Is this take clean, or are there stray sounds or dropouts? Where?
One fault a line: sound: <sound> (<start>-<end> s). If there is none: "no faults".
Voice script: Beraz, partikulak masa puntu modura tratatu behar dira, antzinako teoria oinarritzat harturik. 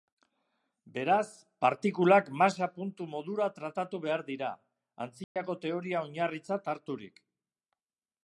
sound: dropout (5.2-5.4 s)